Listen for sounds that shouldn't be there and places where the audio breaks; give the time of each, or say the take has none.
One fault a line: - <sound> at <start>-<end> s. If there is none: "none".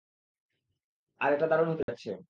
- dropout at 1.8-1.9 s